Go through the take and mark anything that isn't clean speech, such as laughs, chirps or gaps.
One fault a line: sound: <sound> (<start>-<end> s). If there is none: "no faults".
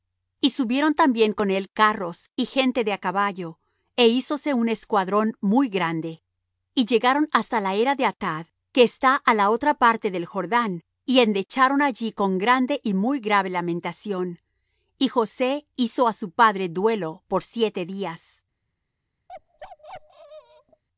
sound: bark (19.3-20.8 s)